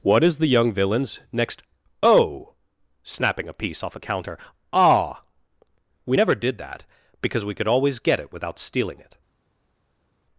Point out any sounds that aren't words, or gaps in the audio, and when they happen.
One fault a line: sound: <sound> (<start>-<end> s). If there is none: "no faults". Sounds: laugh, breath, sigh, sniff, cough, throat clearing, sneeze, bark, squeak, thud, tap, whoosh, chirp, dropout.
no faults